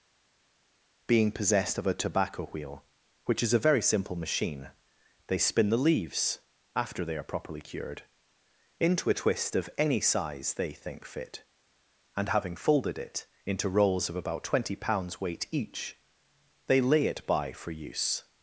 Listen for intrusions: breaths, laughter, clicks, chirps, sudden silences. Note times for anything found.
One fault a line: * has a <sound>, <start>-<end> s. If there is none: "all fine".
all fine